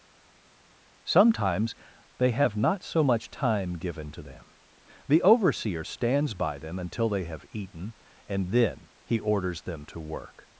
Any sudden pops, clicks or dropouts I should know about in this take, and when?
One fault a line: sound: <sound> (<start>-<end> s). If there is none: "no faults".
no faults